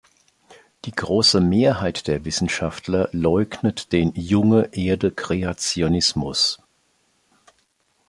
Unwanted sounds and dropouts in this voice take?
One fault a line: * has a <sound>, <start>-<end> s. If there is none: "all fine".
all fine